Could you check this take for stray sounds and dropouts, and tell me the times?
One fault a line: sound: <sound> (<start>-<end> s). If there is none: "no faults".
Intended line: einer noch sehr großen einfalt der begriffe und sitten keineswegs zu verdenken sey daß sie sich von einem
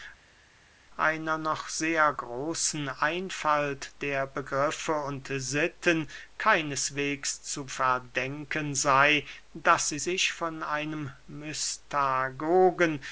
no faults